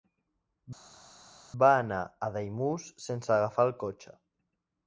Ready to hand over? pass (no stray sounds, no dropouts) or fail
pass